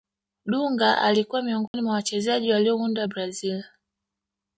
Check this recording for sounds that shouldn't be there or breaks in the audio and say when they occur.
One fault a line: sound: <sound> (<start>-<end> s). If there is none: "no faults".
sound: dropout (1.7-1.7 s)